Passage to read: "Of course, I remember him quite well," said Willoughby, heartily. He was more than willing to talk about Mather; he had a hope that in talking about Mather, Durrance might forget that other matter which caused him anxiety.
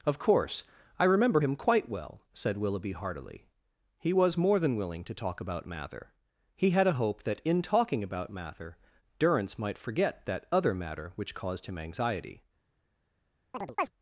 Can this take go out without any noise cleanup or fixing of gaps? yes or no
no